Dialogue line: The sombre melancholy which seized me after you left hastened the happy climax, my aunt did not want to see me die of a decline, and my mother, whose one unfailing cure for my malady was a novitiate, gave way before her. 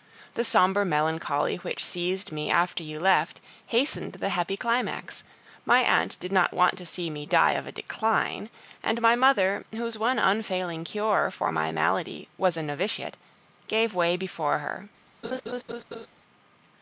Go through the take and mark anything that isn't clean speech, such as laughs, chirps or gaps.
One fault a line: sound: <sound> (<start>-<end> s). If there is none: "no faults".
sound: laugh (15.2-16.1 s)